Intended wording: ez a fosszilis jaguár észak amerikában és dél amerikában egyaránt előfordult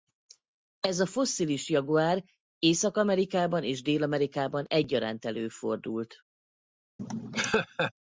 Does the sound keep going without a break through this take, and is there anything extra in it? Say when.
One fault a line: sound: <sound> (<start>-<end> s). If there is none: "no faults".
sound: laugh (7.0-7.9 s)